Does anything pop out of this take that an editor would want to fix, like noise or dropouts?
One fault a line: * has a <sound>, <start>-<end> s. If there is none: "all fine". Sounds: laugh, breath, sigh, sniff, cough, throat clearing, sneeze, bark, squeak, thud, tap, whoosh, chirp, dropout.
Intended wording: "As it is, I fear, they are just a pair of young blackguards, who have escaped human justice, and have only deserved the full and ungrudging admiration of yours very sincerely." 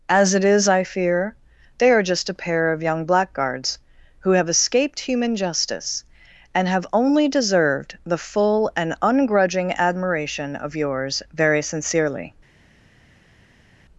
all fine